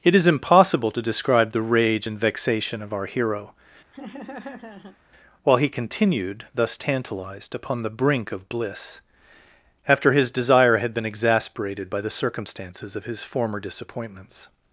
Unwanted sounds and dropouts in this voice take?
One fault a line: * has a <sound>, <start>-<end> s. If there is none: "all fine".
* has a laugh, 3.9-5.0 s